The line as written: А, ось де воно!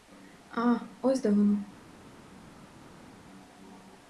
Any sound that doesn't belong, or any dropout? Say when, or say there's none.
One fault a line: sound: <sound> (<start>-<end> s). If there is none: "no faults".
no faults